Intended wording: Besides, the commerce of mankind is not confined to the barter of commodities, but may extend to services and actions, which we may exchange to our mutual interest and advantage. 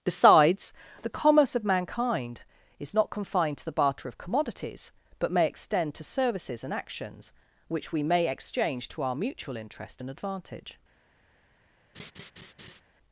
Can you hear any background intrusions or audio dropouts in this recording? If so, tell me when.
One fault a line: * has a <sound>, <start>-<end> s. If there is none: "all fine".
* has a laugh, 11.9-12.8 s